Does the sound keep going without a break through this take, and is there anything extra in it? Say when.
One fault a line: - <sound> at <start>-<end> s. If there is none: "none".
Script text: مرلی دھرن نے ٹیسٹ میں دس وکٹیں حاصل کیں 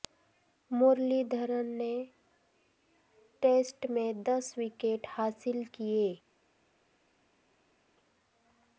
none